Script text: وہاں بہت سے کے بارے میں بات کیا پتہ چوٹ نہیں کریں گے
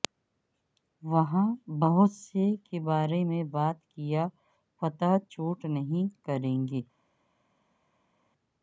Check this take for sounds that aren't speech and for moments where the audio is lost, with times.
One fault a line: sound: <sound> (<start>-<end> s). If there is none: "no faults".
no faults